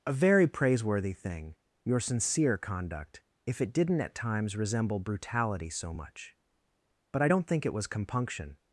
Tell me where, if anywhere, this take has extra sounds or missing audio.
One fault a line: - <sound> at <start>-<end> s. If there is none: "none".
none